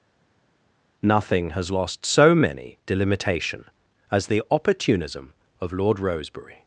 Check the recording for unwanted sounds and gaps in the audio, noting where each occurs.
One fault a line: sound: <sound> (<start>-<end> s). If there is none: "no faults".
no faults